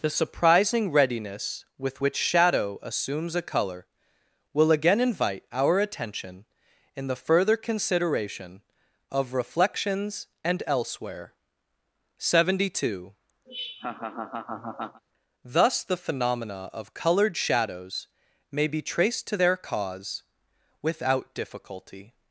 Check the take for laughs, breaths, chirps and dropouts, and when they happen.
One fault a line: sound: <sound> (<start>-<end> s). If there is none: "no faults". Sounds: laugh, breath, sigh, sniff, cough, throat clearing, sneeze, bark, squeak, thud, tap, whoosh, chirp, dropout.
sound: laugh (13.5-15.0 s)